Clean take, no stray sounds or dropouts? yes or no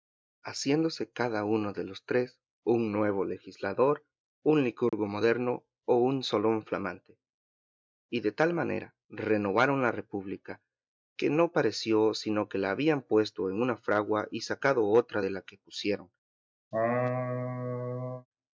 no